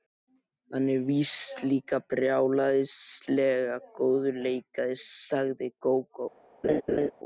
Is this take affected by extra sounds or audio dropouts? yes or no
yes